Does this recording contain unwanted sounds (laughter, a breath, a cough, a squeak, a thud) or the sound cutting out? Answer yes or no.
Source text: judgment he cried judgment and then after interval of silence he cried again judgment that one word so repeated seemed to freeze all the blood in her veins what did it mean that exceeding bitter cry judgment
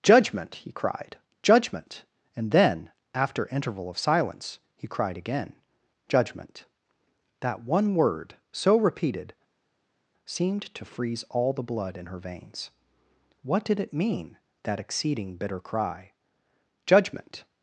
no